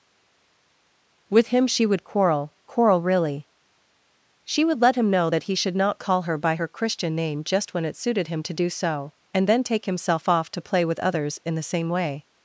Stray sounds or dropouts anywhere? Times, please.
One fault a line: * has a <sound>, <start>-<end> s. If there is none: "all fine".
all fine